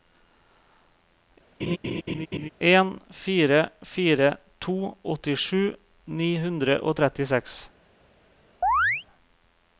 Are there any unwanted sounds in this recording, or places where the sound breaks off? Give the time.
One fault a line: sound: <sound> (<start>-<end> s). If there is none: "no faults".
sound: laugh (1.6-2.5 s)
sound: chirp (8.6-9.0 s)